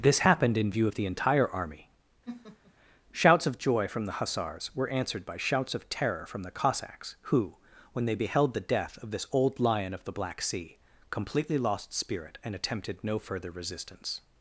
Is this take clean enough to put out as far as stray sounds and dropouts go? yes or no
no